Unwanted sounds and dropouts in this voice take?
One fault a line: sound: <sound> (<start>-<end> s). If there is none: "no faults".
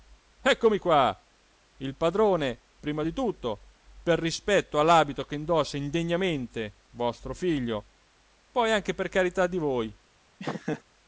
sound: laugh (10.4-10.8 s)